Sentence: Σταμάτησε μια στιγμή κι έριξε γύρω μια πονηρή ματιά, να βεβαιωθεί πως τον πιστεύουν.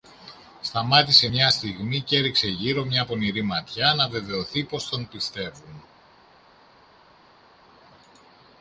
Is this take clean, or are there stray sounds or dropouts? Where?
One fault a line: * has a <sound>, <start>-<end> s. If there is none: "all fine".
all fine